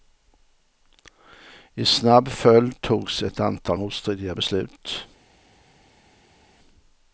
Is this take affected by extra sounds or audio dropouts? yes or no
no